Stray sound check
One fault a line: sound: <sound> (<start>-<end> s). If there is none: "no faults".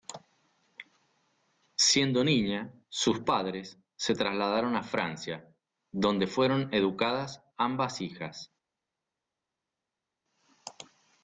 no faults